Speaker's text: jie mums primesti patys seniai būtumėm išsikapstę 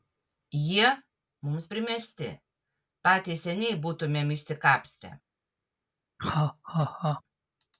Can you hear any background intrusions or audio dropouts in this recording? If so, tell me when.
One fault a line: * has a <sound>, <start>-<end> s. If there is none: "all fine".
* has a laugh, 6.2-7.2 s